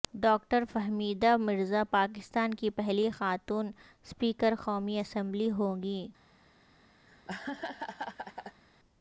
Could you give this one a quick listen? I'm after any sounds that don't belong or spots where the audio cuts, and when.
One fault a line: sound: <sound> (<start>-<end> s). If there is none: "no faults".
sound: laugh (7.1-8.6 s)